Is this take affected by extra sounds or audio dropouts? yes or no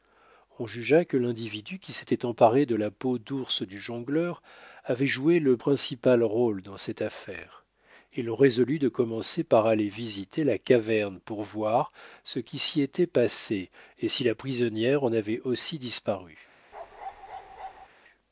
yes